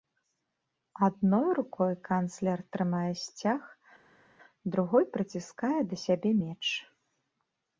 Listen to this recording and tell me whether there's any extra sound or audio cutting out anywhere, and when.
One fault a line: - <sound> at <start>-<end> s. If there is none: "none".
none